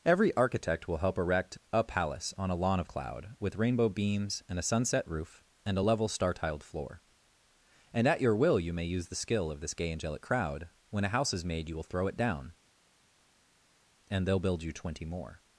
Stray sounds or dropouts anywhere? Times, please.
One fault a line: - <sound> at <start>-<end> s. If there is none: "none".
none